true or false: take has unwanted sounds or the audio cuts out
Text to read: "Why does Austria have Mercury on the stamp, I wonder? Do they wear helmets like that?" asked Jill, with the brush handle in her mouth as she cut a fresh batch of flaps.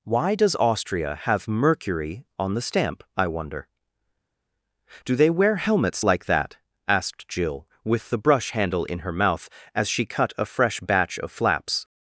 false